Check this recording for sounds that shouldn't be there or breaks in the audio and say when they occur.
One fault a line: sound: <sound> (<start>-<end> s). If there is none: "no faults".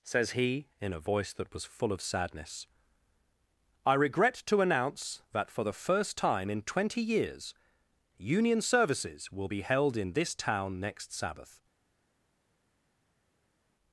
no faults